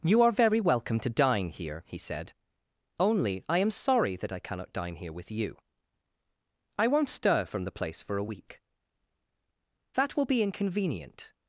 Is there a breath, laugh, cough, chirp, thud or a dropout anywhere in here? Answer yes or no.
no